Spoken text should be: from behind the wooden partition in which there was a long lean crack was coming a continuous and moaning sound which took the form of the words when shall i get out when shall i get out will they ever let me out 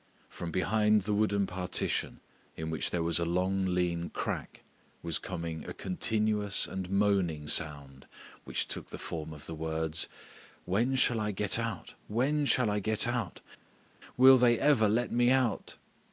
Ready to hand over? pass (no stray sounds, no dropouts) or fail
pass